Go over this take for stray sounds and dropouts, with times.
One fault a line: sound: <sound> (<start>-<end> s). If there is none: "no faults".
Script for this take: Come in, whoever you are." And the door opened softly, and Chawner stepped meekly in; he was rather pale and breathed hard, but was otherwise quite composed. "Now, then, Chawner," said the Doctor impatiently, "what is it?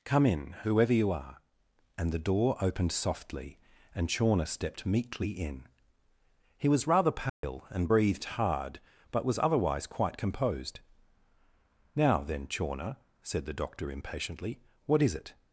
sound: dropout (7.3-7.4 s)